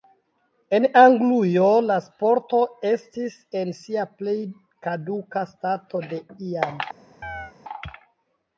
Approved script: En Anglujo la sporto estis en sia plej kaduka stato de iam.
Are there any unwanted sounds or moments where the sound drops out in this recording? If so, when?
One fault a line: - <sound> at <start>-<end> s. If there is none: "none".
- chirp at 7.2-7.5 s